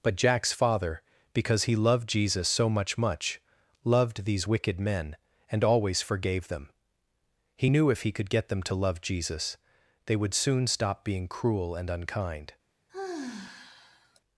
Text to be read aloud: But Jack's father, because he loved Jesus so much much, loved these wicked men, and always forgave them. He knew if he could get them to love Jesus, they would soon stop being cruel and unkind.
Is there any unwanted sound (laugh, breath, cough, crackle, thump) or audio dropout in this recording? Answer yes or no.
yes